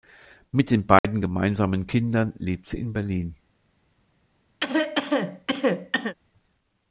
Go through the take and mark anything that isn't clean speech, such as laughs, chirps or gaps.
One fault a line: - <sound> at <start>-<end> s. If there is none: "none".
- dropout at 1.0-1.0 s
- cough at 4.6-6.1 s